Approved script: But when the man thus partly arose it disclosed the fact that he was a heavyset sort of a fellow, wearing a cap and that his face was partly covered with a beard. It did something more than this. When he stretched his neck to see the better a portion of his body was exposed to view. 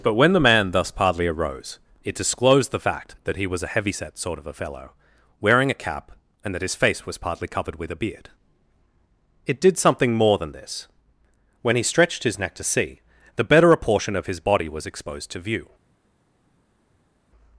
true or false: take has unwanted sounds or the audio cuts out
false